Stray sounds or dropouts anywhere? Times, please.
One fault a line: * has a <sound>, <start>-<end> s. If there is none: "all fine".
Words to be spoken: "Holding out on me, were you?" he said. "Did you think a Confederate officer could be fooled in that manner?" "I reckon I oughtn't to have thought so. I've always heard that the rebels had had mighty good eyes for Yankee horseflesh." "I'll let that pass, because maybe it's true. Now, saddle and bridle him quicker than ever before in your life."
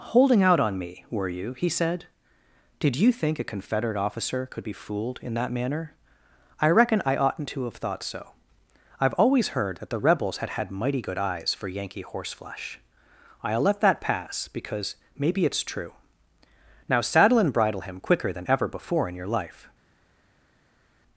all fine